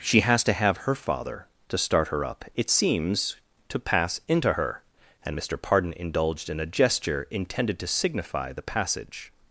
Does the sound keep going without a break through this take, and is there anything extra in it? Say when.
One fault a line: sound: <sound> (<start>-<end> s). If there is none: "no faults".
no faults